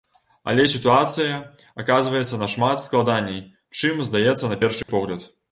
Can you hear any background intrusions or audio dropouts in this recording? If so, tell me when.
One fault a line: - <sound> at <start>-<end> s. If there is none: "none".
- dropout at 4.8-4.9 s